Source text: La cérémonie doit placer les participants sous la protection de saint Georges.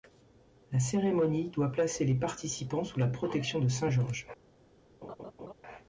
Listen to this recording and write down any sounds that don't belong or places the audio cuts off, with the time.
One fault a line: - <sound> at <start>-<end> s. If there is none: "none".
- laugh at 5.0-5.5 s